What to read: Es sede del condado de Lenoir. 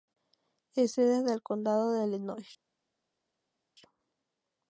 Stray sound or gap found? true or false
false